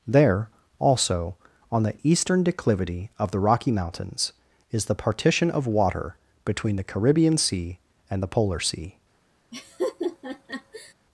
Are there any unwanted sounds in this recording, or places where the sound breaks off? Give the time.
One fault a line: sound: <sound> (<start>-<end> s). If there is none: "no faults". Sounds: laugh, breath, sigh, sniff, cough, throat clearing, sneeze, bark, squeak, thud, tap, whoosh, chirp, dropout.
sound: laugh (9.5-10.9 s)